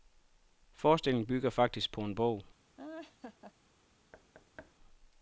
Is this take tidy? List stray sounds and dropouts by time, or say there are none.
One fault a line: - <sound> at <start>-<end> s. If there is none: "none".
- laugh at 2.8-3.5 s
- thud at 4.1-4.8 s